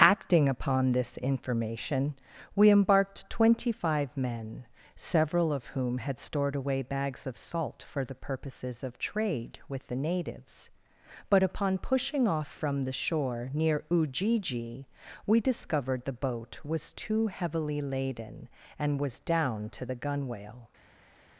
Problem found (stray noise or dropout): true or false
false